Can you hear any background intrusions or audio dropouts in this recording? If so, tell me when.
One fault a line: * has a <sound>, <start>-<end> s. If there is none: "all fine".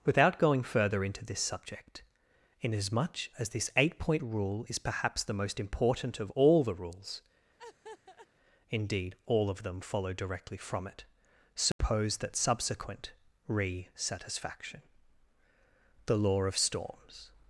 * has a laugh, 7.6-8.3 s
* has a dropout, 11.7-11.8 s